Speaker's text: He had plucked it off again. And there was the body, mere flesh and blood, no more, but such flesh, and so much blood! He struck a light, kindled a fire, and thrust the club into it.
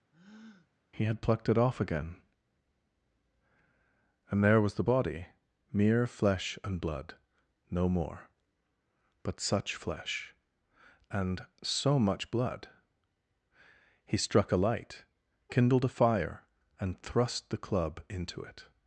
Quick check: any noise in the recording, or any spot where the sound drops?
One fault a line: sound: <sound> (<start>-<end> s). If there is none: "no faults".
sound: breath (0.1-0.7 s)